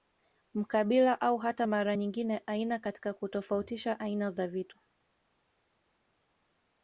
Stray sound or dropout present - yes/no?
no